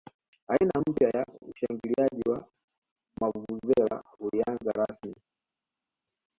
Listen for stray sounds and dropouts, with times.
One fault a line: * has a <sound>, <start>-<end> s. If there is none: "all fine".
all fine